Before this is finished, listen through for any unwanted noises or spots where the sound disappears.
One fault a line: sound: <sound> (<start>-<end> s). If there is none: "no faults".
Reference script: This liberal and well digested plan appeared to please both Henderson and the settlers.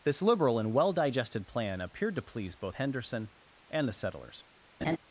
sound: laugh (4.8-5.0 s)